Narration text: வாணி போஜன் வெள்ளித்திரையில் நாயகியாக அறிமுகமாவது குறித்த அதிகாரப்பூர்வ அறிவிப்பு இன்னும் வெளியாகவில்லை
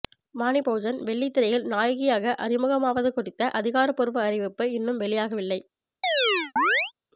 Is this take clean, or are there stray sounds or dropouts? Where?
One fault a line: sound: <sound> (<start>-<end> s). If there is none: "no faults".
sound: chirp (6.0-6.9 s)